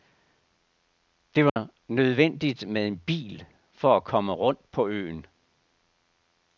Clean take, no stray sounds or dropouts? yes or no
no